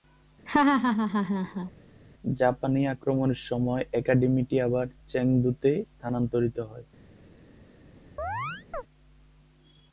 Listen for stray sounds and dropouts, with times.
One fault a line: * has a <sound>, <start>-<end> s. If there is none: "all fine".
* has a laugh, 0.5-1.7 s
* has a chirp, 8.2-8.8 s